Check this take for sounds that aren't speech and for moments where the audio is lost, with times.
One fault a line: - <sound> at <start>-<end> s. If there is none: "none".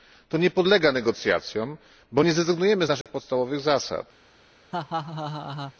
- dropout at 3.0-3.1 s
- laugh at 4.7-5.7 s